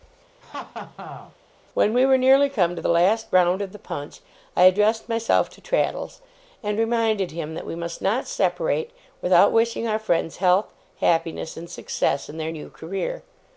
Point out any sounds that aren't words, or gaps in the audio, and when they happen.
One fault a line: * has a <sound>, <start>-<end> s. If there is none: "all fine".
* has a laugh, 0.4-1.4 s